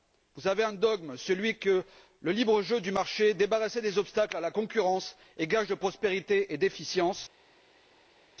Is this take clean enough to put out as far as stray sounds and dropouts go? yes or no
yes